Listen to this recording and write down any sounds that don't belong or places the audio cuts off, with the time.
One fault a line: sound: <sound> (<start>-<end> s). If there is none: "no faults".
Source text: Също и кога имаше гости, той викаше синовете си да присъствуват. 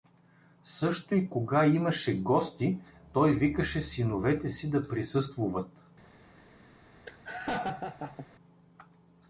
sound: laugh (7.1-8.3 s)